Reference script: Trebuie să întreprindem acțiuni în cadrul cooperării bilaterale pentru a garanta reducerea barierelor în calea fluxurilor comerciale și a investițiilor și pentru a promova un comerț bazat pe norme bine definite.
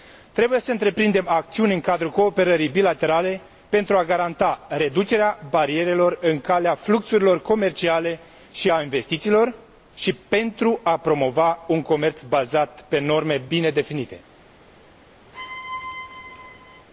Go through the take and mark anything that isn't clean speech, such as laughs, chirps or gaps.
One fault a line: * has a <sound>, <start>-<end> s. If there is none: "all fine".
* has a squeak, 15.3-16.9 s